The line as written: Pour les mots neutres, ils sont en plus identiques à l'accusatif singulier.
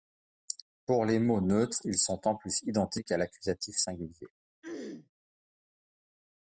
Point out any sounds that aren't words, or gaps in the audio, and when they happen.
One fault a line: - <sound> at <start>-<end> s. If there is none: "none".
- throat clearing at 4.6-5.1 s